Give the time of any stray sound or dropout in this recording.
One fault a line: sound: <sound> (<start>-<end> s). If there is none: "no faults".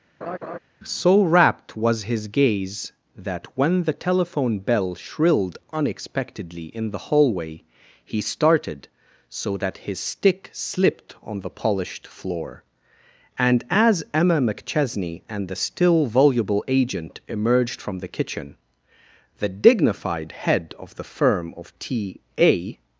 sound: laugh (0.2-0.6 s)